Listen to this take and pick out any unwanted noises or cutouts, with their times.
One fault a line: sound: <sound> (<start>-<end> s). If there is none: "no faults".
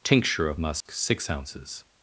sound: dropout (0.8-0.9 s)